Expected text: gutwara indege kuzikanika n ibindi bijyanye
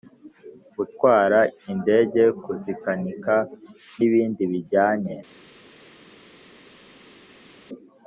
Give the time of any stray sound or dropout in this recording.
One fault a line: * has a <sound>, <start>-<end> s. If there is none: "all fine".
all fine